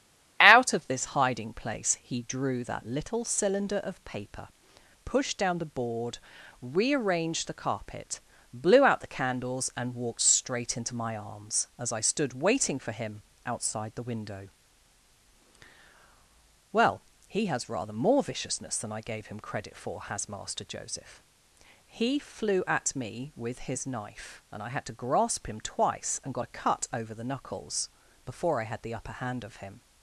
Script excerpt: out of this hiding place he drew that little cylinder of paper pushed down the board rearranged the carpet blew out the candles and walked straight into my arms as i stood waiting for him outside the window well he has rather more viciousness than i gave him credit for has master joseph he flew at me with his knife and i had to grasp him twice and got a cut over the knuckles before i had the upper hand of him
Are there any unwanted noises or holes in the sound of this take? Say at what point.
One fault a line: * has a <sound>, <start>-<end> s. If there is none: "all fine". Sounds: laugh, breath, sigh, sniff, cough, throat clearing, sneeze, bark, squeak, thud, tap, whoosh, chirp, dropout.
all fine